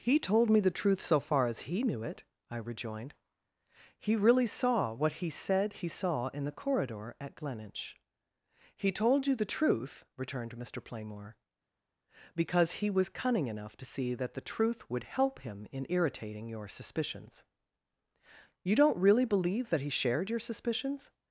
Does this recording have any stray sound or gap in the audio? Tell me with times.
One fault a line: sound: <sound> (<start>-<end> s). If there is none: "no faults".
no faults